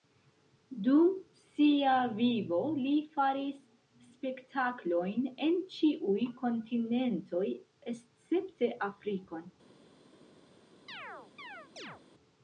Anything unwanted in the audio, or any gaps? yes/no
yes